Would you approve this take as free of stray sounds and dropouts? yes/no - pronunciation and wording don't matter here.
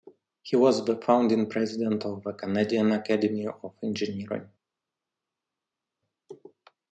yes